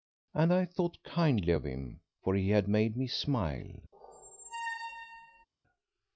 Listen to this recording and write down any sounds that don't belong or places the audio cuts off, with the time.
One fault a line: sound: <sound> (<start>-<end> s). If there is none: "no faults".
sound: squeak (3.9-5.5 s)